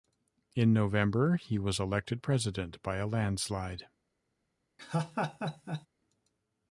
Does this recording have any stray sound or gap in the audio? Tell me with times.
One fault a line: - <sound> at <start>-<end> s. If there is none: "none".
- laugh at 4.8-5.9 s